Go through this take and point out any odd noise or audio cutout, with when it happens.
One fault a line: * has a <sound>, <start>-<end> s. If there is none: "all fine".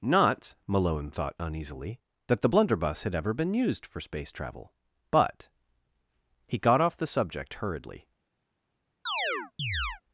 * has a chirp, 9.1-10.0 s